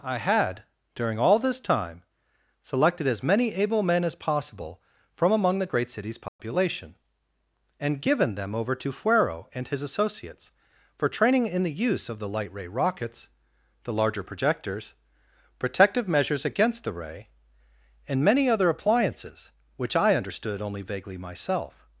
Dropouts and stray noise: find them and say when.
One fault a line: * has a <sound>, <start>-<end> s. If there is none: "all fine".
* has a dropout, 6.3-6.4 s